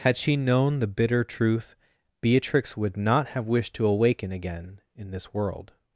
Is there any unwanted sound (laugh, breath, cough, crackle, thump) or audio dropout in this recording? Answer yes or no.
no